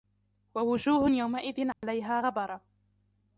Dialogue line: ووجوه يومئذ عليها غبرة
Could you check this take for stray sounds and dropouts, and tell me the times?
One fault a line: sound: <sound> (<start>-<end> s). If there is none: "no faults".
sound: dropout (1.7-1.8 s)